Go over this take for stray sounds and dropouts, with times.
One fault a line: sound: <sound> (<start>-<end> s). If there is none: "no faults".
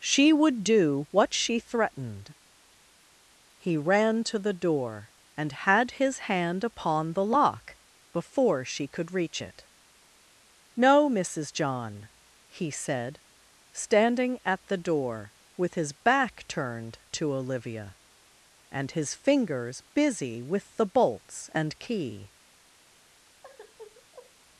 sound: sigh (23.4-24.3 s)